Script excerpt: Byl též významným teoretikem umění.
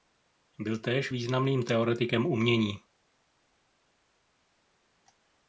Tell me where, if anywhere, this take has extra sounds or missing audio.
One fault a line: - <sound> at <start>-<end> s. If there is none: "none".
none